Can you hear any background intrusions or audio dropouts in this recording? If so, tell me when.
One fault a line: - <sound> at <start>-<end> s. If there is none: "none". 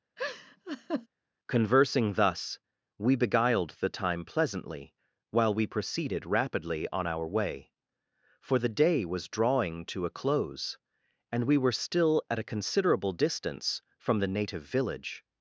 - laugh at 0.2-1.1 s